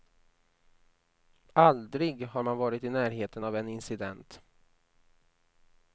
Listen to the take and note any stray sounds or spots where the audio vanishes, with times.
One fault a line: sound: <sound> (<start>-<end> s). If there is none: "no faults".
no faults